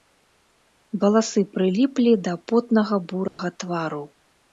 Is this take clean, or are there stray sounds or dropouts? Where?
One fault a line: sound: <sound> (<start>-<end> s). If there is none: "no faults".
sound: dropout (3.3-3.4 s)